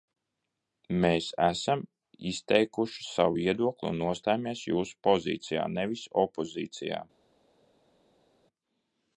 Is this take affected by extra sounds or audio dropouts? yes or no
no